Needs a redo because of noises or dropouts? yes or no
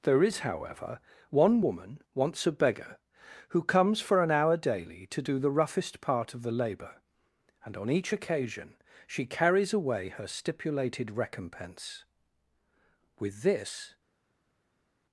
no